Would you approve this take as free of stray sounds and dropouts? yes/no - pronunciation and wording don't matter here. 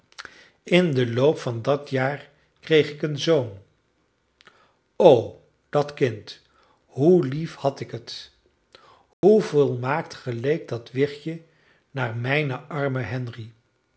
no